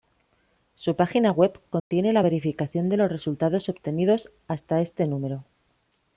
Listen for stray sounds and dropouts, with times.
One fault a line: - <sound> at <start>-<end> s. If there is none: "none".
- dropout at 1.8-1.9 s